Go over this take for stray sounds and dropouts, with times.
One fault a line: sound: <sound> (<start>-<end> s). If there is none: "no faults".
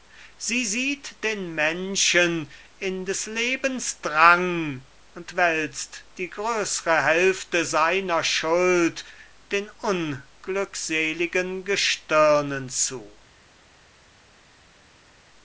no faults